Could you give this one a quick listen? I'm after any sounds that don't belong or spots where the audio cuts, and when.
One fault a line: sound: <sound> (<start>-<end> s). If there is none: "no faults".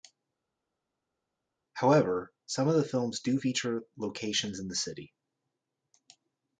no faults